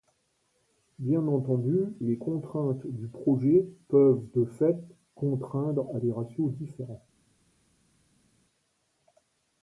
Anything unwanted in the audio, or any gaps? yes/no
no